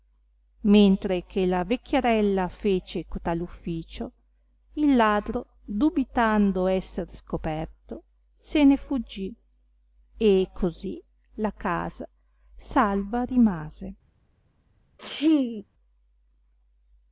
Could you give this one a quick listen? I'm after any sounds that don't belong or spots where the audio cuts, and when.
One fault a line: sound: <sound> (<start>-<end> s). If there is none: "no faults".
sound: sneeze (15.0-15.6 s)